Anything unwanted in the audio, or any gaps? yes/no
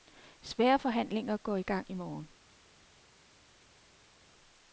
no